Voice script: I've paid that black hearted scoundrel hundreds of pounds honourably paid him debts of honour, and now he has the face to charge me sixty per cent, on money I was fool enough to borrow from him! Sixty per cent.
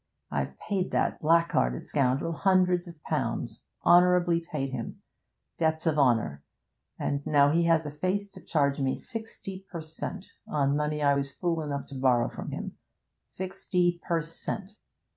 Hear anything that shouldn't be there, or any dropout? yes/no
no